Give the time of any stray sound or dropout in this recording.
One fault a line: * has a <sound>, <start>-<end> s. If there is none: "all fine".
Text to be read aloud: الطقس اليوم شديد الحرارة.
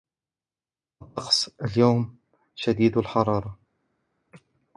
all fine